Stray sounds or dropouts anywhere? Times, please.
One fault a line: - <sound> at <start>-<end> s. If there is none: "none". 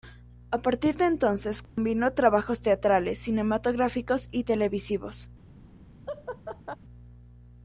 - dropout at 1.6-1.8 s
- laugh at 6.1-6.8 s